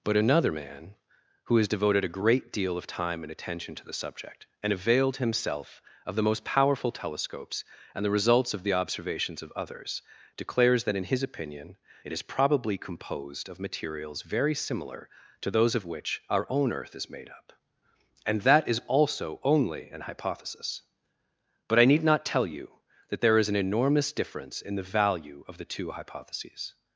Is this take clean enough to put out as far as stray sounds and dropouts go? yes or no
yes